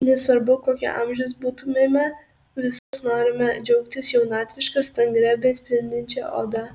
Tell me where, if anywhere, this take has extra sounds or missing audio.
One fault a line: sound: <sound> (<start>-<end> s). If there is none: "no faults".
sound: dropout (2.8-2.9 s)